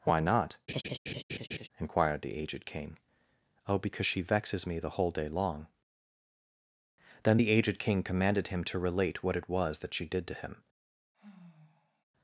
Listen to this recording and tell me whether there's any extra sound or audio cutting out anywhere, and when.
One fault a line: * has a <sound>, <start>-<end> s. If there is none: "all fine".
* has a laugh, 0.7-1.7 s
* has a sigh, 11.1-12.0 s